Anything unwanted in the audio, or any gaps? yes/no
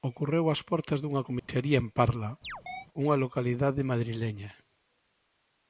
yes